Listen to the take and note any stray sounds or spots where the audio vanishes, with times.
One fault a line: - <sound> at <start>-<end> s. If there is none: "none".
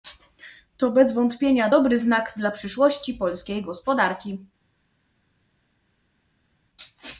none